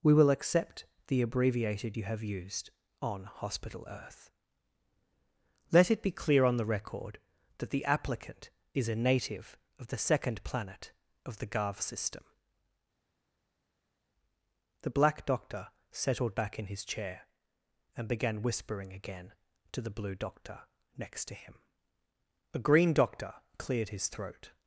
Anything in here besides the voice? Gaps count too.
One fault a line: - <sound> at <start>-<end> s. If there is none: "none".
none